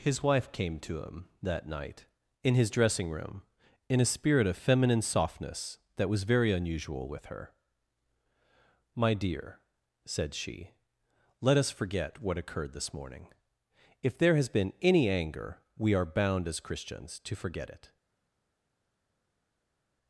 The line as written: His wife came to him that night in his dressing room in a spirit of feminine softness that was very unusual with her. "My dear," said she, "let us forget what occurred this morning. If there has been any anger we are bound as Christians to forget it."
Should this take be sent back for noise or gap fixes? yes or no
no